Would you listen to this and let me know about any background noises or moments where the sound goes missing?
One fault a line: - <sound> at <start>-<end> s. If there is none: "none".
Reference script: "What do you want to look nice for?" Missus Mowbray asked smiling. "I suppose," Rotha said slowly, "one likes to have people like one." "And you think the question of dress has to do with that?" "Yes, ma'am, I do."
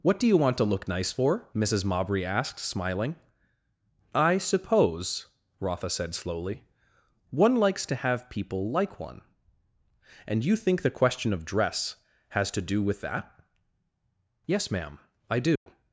- dropout at 15.6-15.7 s